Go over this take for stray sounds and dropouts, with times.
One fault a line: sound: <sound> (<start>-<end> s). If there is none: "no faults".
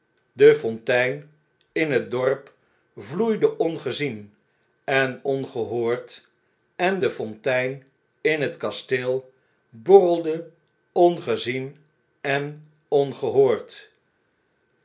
no faults